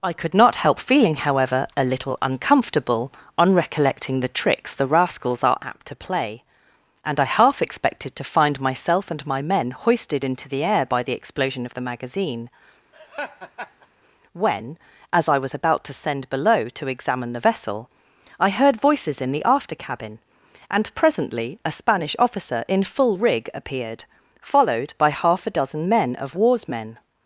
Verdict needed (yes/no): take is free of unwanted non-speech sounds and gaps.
no